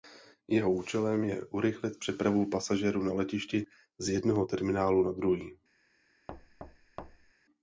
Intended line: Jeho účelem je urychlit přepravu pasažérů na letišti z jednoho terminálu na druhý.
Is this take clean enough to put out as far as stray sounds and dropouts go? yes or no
no